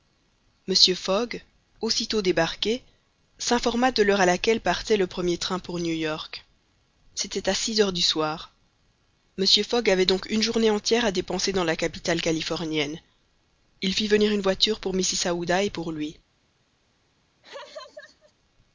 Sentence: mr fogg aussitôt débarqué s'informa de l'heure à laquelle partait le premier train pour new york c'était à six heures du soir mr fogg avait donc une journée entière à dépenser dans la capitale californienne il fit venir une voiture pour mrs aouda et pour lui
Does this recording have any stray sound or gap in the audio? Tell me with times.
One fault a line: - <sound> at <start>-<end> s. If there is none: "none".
- laugh at 17.4-18.3 s